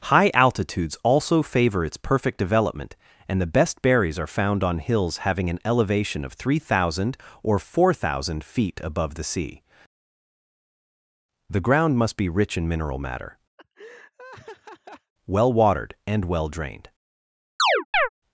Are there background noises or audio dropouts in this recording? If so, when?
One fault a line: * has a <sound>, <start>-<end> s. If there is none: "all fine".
* has a laugh, 13.6-15.1 s
* has a chirp, 17.6-18.1 s